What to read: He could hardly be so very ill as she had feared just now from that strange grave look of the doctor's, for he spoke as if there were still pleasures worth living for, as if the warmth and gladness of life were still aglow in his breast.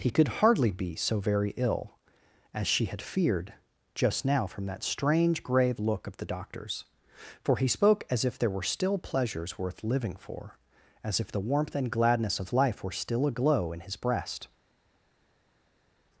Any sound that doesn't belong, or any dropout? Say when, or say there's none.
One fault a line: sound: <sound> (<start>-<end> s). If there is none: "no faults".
no faults